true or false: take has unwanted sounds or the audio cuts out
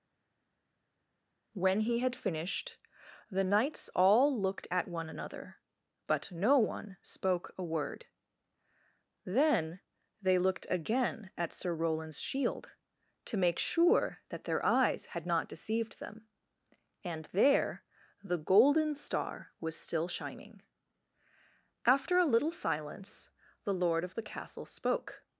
false